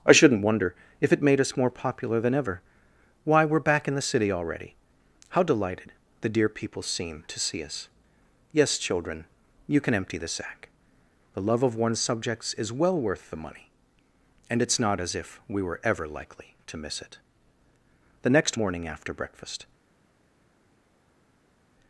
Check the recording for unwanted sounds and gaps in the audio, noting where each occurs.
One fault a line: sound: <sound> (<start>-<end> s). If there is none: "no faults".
no faults